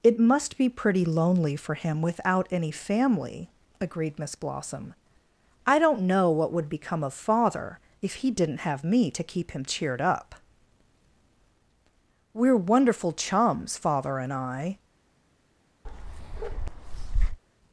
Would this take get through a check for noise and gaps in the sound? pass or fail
fail